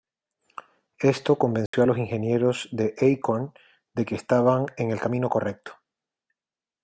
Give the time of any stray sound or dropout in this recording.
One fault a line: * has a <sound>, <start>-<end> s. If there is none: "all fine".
* has a dropout, 1.7-1.7 s